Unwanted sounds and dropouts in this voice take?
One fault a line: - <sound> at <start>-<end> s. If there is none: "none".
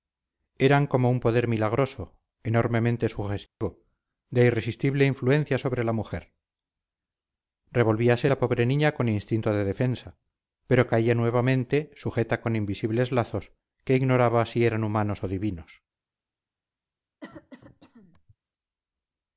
- dropout at 3.5-3.6 s
- cough at 17.2-18.4 s